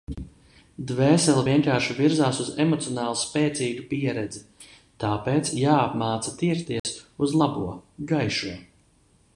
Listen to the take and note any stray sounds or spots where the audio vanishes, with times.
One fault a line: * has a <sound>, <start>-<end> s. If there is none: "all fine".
* has a dropout, 6.8-6.8 s